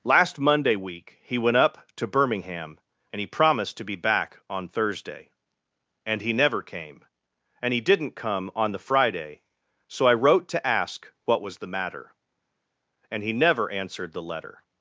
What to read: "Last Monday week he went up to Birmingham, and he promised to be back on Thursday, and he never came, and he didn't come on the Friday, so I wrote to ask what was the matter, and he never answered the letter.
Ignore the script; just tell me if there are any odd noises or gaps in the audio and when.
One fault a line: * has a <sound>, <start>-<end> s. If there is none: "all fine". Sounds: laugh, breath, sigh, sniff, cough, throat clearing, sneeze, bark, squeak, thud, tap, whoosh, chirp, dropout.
all fine